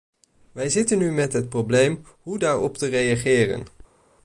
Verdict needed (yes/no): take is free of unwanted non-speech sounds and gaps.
yes